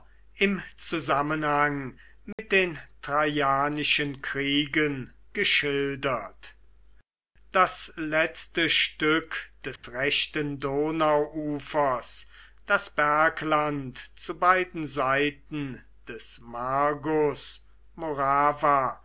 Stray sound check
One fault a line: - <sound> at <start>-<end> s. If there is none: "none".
- dropout at 2.3-2.4 s
- dropout at 9.8-9.8 s